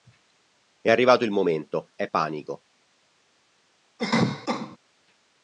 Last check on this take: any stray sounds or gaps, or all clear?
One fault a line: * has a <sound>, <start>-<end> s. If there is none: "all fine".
* has a cough, 4.0-4.8 s